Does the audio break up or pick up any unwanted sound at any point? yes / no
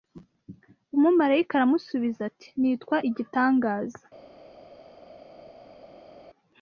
no